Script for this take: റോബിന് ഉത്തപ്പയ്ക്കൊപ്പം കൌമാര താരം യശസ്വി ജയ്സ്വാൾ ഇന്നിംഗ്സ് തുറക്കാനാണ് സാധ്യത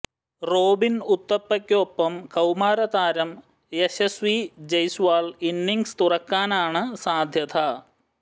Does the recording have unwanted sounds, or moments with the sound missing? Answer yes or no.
no